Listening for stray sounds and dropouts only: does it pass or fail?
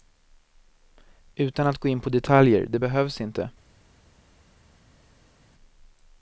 pass